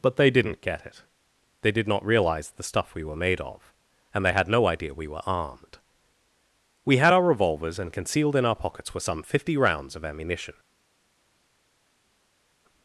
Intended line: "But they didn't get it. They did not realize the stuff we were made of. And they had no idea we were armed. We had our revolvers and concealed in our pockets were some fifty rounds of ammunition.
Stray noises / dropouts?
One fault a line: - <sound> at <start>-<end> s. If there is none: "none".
none